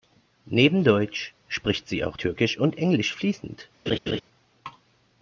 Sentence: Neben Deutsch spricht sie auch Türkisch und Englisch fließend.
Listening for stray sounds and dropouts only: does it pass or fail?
fail